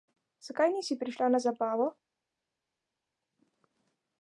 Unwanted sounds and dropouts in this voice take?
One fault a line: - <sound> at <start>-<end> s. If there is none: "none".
none